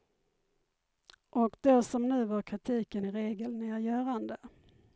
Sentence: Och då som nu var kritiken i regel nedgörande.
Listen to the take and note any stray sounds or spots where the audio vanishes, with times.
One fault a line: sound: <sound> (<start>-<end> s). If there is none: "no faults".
no faults